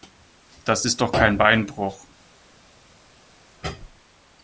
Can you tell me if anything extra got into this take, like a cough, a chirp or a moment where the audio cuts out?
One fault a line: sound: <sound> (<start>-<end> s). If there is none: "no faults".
no faults